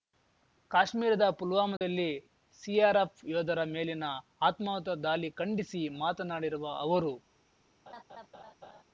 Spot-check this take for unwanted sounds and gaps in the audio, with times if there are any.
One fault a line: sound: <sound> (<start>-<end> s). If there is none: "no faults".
sound: dropout (1.8-1.8 s)
sound: laugh (7.9-8.8 s)